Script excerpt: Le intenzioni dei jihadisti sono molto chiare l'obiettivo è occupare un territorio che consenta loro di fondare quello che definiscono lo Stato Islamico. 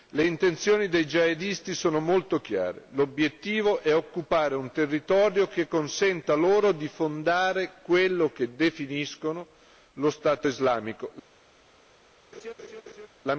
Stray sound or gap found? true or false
true